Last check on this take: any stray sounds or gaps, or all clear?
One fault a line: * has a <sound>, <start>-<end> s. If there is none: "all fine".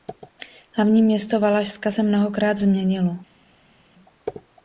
all fine